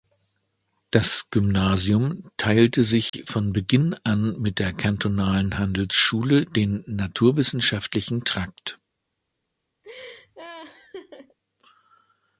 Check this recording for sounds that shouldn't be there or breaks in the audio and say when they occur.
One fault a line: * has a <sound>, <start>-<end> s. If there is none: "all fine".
* has a dropout, 3.1-3.1 s
* has a laugh, 9.8-11.4 s